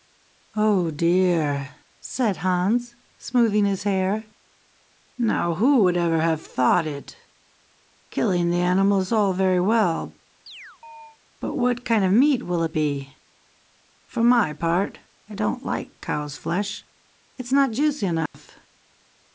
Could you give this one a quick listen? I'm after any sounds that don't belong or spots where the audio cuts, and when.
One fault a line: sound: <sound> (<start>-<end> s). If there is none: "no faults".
sound: chirp (10.5-11.2 s)
sound: dropout (18.3-18.3 s)